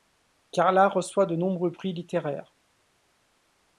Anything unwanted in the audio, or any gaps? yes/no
no